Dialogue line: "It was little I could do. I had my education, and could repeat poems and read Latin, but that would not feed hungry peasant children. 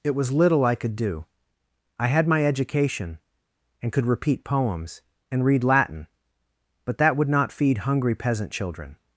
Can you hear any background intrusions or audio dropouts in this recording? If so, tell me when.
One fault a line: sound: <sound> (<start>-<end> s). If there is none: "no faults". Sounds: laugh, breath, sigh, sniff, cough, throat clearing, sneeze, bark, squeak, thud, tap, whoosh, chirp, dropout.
no faults